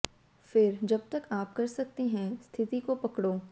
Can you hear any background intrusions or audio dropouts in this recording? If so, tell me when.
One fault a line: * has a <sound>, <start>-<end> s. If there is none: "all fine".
all fine